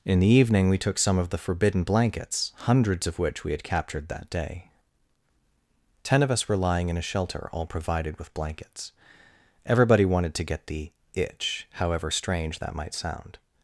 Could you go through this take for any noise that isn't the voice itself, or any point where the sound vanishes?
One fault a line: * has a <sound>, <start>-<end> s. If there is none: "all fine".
all fine